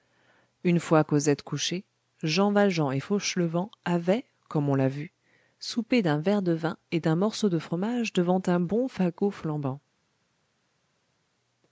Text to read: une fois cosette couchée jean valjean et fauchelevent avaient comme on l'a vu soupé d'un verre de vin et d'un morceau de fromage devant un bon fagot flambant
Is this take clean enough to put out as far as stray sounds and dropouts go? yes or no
yes